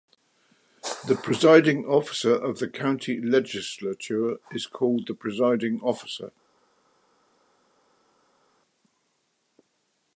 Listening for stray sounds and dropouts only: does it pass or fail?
pass